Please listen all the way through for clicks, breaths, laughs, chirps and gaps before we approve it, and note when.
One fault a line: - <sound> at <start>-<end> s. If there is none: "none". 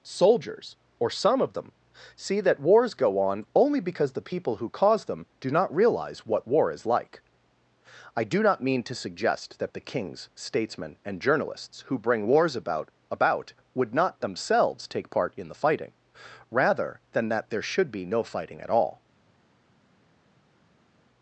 none